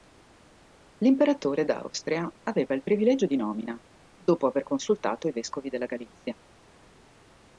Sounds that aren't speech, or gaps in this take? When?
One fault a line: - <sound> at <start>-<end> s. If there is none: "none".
none